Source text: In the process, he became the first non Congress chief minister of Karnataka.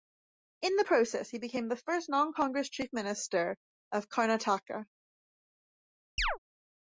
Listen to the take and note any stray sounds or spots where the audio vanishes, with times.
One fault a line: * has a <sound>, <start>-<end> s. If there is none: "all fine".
* has a chirp, 6.2-6.4 s